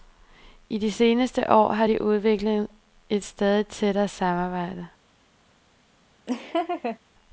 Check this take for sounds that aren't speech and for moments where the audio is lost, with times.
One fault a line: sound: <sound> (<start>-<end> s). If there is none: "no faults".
sound: laugh (6.3-7.0 s)